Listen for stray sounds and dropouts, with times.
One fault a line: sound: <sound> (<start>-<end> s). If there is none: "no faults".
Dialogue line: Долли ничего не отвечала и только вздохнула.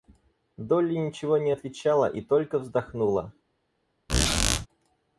sound: squeak (4.1-4.7 s)